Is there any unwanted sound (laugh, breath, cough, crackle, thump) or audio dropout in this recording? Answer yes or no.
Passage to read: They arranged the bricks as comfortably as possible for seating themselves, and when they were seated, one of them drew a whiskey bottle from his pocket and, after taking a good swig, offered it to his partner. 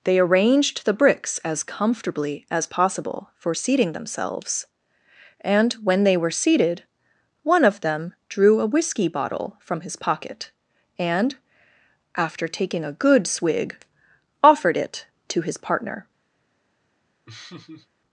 yes